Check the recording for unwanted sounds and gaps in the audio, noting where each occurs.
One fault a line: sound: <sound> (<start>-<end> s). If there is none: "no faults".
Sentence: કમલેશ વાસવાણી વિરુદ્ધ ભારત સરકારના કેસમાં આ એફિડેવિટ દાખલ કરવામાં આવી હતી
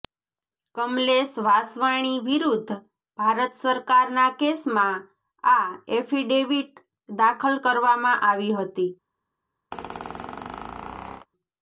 sound: squeak (9.7-11.3 s)